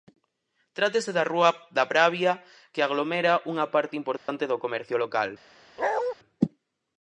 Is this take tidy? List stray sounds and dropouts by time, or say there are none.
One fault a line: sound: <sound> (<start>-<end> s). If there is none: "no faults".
sound: dropout (4.2-4.3 s)
sound: bark (5.8-6.1 s)